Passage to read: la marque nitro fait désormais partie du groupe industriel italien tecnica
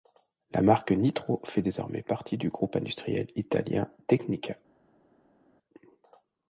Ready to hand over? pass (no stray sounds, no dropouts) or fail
pass